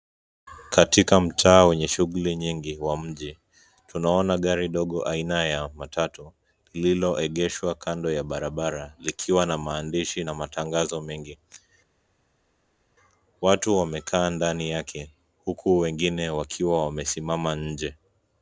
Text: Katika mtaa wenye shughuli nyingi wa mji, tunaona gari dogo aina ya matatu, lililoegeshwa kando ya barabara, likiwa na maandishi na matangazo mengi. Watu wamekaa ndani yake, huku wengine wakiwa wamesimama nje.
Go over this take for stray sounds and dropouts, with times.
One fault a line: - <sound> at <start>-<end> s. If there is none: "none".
none